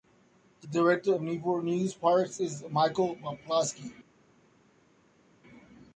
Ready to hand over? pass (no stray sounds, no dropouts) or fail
pass